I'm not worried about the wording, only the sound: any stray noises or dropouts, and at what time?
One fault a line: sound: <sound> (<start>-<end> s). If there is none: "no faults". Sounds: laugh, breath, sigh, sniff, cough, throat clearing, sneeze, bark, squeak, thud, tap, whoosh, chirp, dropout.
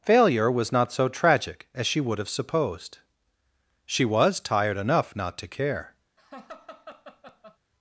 sound: laugh (6.2-7.6 s)